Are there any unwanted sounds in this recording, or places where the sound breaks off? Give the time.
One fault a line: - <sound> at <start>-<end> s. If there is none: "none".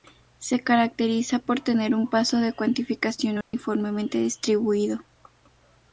- dropout at 3.4-3.5 s